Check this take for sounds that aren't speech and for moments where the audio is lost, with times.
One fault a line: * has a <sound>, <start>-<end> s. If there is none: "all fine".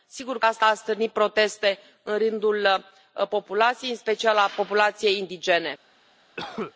* has a cough, 6.4-6.7 s